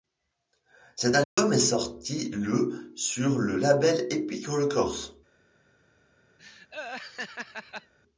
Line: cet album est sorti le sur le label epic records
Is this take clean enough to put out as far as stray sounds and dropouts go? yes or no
no